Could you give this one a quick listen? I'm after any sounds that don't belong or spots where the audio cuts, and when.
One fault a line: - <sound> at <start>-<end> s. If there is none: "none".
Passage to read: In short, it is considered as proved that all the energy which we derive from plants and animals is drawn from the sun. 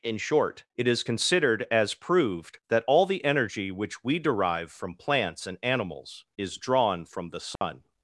- dropout at 7.6-7.6 s